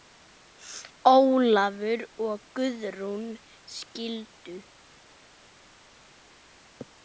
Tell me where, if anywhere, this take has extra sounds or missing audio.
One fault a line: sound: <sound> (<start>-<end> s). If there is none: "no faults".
no faults